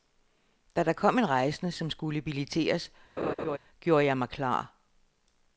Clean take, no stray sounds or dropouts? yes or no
no